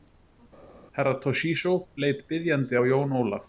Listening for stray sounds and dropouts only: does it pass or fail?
pass